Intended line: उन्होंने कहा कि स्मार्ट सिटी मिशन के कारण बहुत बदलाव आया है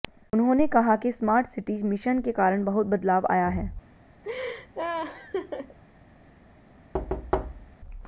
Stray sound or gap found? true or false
true